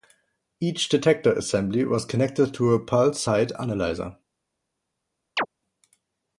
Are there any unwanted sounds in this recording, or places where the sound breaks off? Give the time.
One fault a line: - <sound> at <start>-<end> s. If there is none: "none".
- chirp at 5.4-5.5 s